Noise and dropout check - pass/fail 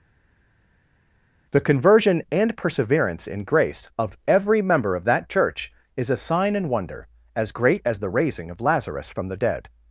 pass